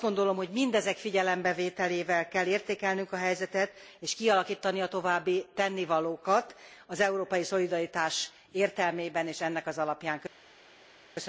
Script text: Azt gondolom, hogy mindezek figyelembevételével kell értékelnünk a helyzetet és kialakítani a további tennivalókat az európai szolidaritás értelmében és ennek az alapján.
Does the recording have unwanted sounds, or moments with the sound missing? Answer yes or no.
no